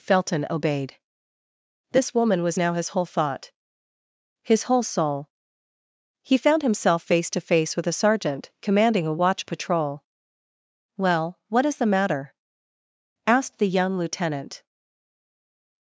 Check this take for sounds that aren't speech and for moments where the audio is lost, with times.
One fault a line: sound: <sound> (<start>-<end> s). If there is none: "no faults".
no faults